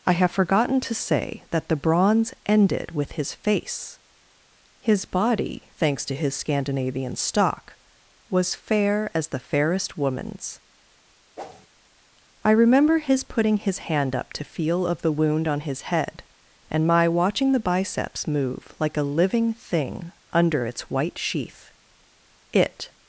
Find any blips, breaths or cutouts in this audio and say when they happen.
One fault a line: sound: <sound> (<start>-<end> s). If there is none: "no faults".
sound: whoosh (11.4-11.7 s)